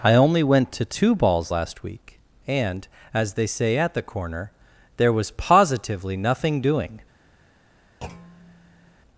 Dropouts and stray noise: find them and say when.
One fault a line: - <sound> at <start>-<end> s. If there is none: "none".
- thud at 8.0-9.0 s